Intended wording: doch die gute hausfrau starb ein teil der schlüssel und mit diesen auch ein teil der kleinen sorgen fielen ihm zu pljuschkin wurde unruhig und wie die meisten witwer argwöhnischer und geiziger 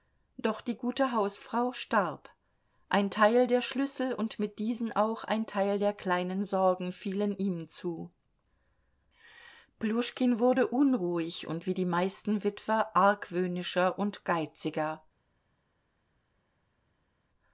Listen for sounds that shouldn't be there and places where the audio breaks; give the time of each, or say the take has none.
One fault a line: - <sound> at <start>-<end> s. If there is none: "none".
none